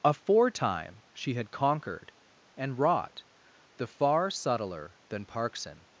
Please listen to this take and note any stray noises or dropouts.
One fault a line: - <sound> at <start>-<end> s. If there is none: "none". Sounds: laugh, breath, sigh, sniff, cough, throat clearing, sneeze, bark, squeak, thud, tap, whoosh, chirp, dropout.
none